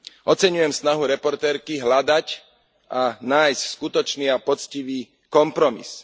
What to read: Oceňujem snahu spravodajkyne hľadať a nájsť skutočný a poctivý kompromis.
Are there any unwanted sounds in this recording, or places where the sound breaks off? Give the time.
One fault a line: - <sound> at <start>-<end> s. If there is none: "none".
none